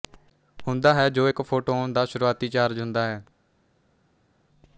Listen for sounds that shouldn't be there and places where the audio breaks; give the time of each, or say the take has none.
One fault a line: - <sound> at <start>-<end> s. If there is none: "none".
none